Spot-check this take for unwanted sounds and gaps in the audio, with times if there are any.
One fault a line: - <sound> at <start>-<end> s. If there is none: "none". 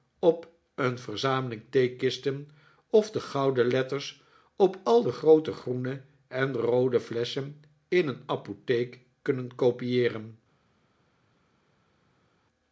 none